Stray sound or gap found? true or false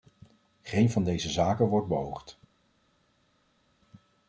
false